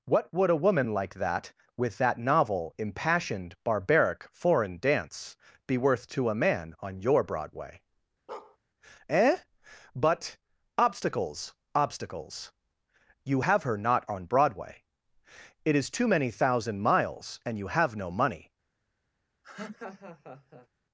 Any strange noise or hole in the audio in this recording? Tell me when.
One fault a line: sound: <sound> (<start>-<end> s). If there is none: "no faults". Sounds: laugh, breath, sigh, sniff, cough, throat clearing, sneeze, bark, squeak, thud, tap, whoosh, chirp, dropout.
sound: bark (8.3-8.6 s)
sound: laugh (19.4-20.7 s)